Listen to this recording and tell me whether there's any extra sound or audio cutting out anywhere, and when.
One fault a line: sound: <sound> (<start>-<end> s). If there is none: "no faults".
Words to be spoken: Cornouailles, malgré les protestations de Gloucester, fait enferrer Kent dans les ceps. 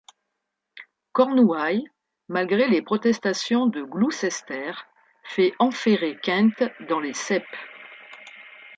no faults